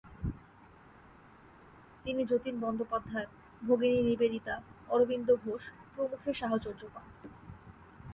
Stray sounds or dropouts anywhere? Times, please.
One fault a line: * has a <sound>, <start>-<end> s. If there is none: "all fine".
all fine